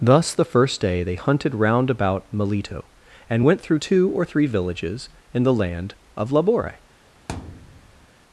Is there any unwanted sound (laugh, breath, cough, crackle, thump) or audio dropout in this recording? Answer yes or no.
yes